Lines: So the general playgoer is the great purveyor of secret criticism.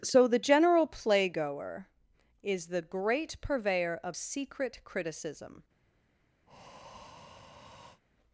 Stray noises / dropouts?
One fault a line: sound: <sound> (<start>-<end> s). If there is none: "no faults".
sound: breath (6.5-8.0 s)